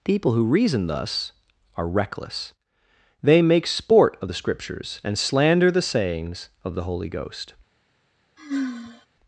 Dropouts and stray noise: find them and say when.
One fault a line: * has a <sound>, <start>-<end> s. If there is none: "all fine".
* has a sigh, 8.4-9.1 s